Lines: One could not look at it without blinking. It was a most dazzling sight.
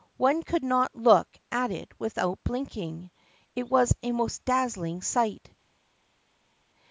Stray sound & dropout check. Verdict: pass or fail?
pass